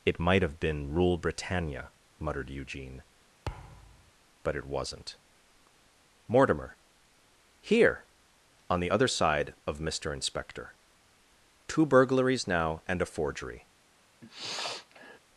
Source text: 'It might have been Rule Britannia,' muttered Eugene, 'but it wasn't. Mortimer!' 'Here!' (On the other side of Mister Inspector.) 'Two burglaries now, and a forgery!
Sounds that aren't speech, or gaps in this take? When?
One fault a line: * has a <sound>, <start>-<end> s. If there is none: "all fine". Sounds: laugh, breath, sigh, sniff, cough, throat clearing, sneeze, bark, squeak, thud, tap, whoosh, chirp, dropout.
* has a thud, 3.5-4.1 s
* has a sniff, 14.2-15.2 s